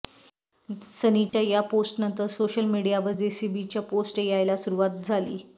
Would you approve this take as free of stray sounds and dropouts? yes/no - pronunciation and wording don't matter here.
no